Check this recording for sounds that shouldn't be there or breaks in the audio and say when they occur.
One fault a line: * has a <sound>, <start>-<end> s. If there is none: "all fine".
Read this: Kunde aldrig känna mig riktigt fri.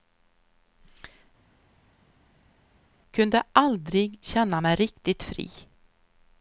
all fine